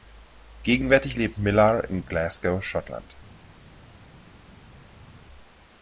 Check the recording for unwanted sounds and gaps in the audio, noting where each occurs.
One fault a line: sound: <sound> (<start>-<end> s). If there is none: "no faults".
no faults